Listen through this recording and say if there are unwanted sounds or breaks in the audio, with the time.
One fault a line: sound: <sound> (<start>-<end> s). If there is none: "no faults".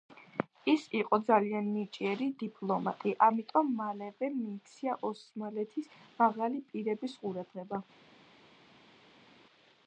no faults